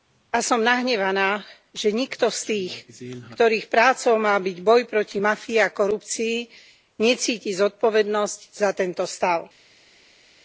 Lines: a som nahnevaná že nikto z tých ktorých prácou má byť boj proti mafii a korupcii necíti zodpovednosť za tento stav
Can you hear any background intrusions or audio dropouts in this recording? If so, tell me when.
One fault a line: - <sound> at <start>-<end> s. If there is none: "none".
none